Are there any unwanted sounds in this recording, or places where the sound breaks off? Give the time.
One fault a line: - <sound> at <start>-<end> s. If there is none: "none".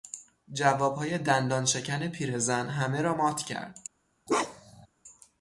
- bark at 4.3-4.9 s